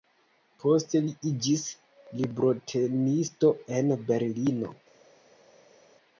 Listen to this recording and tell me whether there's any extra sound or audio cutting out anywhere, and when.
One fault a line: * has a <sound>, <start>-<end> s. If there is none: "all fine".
all fine